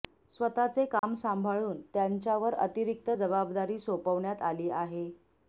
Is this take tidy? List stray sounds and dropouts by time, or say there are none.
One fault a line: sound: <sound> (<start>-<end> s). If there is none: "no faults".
sound: dropout (1.0-1.0 s)